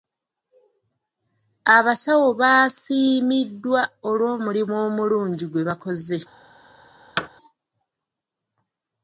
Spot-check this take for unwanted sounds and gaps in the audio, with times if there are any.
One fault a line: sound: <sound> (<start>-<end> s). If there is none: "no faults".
sound: thud (7.2-7.3 s)